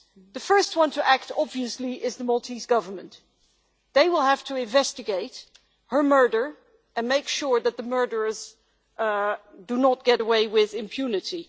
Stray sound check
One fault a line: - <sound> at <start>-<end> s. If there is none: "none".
none